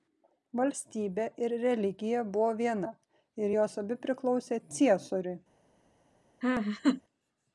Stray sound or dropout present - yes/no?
yes